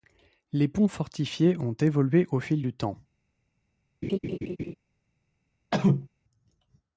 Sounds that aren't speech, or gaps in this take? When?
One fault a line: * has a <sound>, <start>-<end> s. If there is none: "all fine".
* has a laugh, 4.0-4.7 s
* has a cough, 5.7-6.1 s